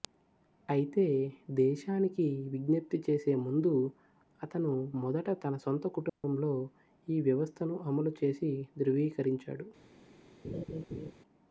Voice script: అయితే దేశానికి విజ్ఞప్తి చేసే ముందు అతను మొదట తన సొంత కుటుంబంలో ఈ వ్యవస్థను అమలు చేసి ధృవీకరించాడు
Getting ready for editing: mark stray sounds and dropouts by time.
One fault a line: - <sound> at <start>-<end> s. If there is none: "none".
- dropout at 6.1-6.2 s
- laugh at 10.4-11.1 s